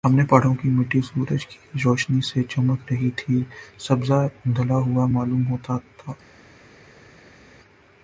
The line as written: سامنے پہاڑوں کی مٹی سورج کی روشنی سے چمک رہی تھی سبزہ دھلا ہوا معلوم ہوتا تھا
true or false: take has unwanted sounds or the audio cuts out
false